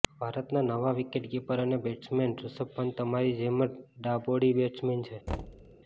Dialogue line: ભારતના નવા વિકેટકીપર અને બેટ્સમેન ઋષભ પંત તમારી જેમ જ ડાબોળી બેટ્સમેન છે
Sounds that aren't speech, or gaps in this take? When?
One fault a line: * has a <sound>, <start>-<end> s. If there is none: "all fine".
* has a thud, 5.3-5.8 s